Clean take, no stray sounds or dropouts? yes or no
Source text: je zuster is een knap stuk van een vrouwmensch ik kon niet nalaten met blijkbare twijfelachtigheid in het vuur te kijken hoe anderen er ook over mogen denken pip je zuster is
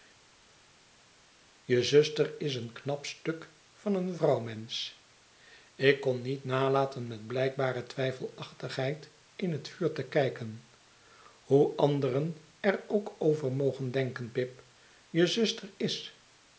yes